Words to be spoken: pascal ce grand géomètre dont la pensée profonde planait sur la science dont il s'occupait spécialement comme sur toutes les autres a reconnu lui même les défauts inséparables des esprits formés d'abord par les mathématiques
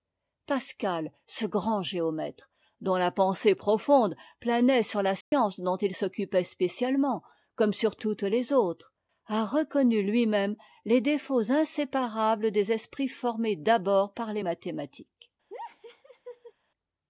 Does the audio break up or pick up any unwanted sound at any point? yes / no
yes